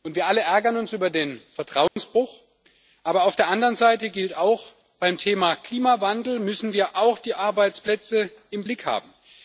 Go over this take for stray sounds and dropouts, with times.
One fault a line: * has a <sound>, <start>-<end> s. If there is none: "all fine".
* has a dropout, 1.9-2.0 s